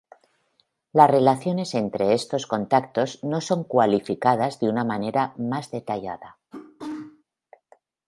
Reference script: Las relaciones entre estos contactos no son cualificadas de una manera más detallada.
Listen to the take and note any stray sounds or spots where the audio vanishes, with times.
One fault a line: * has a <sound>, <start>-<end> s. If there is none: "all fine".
* has a sneeze, 6.5-7.2 s